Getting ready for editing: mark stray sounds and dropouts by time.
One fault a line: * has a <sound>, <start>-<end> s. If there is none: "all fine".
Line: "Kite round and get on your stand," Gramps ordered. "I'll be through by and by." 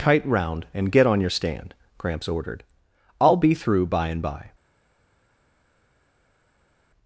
all fine